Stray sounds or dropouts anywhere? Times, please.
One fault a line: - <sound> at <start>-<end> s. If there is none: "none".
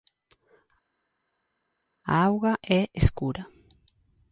none